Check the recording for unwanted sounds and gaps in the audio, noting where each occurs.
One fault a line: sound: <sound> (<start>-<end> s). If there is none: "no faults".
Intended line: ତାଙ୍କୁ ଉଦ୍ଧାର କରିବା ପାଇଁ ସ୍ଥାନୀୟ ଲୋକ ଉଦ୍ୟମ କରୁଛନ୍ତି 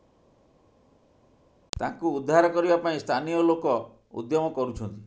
no faults